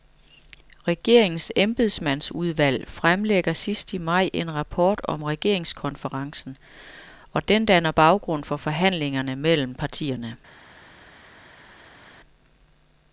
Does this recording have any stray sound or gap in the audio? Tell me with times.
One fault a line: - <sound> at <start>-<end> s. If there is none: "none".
none